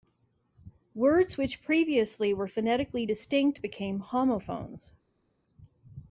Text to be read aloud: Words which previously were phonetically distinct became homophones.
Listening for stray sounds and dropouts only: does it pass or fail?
pass